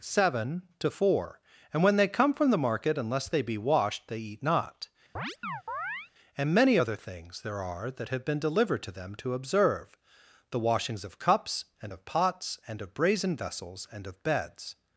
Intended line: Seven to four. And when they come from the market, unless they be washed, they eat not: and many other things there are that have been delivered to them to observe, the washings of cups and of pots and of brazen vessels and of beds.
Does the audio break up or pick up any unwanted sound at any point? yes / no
yes